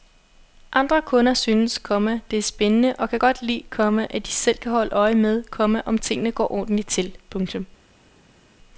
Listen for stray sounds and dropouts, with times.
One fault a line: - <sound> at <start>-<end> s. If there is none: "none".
none